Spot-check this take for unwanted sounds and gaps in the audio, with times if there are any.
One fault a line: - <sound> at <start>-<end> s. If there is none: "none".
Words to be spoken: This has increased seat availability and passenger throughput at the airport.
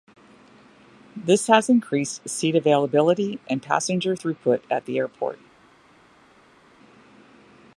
none